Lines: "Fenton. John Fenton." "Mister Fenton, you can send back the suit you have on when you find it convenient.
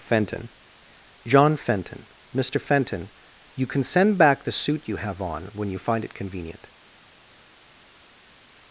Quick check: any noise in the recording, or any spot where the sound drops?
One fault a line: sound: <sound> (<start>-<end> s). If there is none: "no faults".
no faults